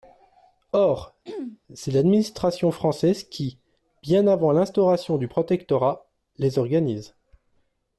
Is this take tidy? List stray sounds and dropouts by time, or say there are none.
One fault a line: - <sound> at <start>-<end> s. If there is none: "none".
- throat clearing at 1.2-1.6 s